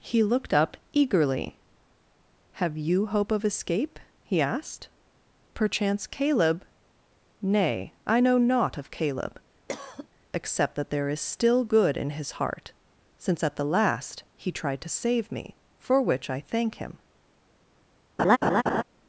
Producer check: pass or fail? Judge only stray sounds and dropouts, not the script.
fail